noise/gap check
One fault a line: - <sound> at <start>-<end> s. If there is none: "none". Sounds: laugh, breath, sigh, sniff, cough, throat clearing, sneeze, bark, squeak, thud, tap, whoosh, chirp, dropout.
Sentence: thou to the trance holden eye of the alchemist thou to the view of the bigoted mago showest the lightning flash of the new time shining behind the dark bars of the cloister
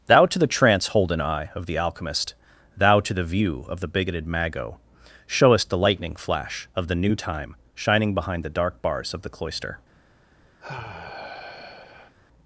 - sigh at 10.6-12.1 s